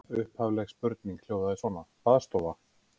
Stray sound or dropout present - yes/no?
no